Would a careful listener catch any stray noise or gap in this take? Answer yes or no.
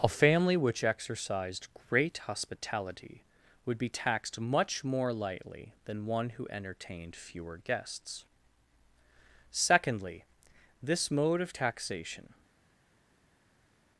no